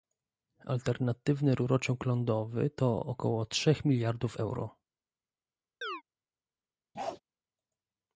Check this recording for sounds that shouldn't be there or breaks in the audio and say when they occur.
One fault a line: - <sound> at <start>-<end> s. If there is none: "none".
- chirp at 5.8-6.0 s
- bark at 6.9-7.2 s